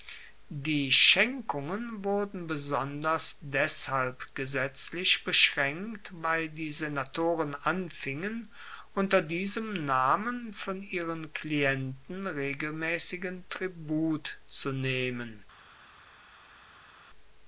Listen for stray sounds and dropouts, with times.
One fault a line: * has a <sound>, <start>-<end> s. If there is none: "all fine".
all fine